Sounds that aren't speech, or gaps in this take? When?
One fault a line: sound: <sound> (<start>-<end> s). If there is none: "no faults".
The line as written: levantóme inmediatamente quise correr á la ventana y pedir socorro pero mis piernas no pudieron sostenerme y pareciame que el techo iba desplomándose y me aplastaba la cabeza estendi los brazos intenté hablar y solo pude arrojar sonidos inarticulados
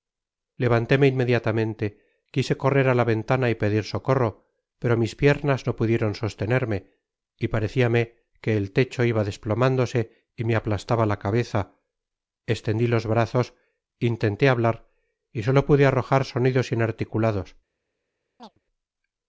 sound: chirp (18.4-18.6 s)